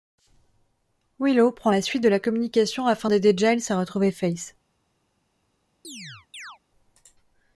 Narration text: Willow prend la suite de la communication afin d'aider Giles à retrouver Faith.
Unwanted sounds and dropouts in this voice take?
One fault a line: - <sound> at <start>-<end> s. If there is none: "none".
- chirp at 5.8-6.6 s